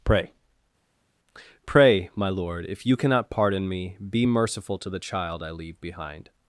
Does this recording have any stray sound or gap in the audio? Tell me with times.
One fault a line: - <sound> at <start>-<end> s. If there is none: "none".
none